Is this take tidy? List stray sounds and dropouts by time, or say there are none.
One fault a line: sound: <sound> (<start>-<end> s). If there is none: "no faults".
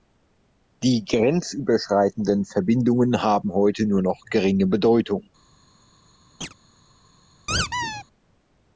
sound: chirp (6.4-6.5 s)
sound: squeak (7.5-8.0 s)